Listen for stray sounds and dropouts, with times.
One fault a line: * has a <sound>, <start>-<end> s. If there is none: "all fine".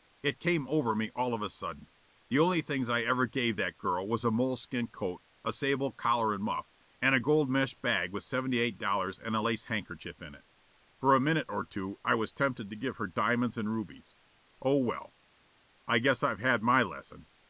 all fine